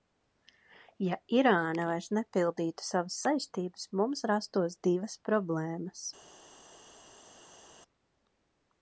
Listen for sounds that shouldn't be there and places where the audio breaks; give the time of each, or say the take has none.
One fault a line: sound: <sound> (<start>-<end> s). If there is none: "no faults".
no faults